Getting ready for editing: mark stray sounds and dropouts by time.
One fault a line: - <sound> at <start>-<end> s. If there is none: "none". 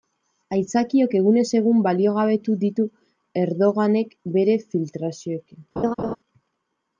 - laugh at 5.8-6.2 s